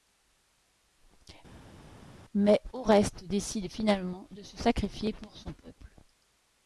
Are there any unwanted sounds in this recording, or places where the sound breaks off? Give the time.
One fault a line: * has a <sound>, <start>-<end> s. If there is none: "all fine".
all fine